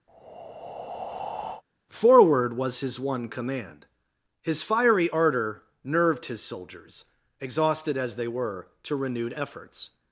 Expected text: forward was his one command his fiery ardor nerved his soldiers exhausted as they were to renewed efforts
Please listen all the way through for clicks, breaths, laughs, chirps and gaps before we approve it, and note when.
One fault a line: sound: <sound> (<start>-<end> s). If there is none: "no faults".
sound: breath (0.1-1.6 s)